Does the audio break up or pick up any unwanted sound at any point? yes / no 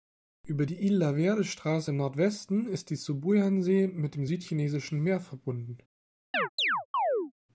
yes